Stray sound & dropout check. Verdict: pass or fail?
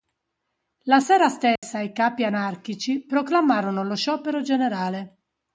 fail